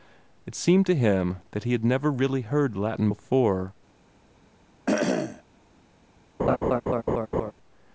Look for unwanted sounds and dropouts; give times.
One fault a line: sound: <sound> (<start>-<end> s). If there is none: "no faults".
sound: cough (4.9-5.4 s)
sound: laugh (6.4-7.5 s)